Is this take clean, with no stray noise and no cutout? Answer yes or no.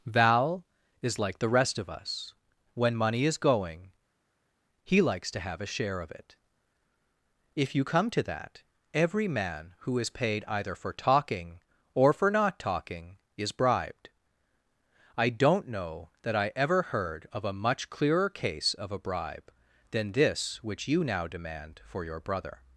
yes